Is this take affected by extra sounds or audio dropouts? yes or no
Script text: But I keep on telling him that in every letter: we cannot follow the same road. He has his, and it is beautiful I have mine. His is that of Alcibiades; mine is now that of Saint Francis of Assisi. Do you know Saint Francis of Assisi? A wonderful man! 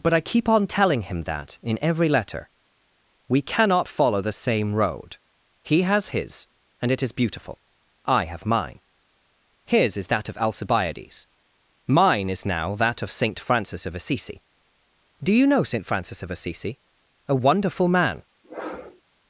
yes